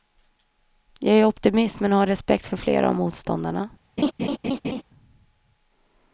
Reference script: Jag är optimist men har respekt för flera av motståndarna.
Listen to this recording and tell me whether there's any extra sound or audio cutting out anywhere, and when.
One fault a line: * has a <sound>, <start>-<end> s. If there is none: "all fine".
* has a laugh, 4.0-4.8 s